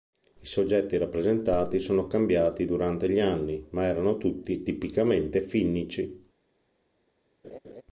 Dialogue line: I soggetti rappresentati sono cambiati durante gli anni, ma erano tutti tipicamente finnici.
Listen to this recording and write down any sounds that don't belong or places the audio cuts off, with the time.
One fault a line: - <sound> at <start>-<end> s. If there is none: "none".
- laugh at 7.4-7.8 s